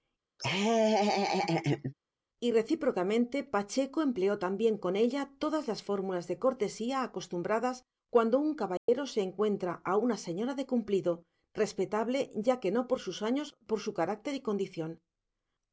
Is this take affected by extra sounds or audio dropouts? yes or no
yes